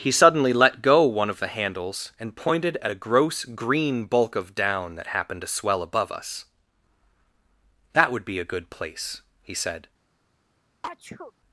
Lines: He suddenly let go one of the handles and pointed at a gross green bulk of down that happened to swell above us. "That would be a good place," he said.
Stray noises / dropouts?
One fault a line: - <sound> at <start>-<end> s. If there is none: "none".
- sneeze at 10.8-11.3 s